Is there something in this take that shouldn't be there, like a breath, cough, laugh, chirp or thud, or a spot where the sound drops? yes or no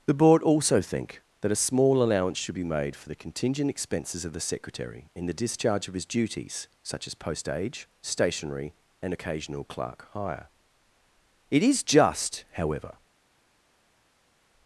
no